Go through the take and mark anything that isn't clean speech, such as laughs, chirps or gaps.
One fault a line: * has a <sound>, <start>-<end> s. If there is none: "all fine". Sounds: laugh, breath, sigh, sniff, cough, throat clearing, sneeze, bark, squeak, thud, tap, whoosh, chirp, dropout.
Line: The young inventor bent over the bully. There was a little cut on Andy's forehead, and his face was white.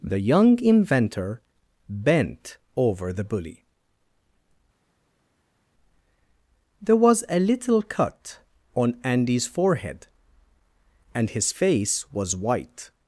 all fine